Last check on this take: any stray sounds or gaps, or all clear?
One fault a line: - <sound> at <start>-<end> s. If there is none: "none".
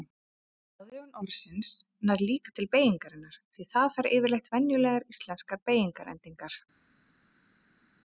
none